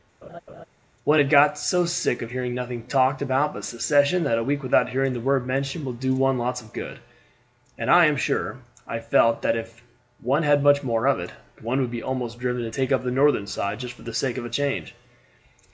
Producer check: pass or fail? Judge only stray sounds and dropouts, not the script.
fail